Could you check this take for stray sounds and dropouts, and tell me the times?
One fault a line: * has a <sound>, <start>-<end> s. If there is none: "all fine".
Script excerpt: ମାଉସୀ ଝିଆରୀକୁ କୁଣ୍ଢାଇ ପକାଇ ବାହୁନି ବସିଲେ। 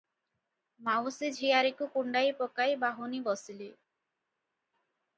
all fine